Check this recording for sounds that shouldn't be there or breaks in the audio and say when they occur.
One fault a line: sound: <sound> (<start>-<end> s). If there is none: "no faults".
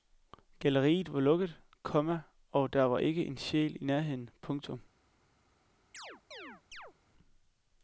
sound: chirp (5.9-6.9 s)